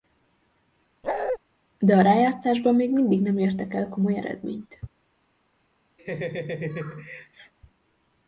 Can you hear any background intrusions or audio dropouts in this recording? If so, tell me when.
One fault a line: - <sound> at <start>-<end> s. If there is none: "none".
- bark at 1.0-1.4 s
- laugh at 6.0-7.5 s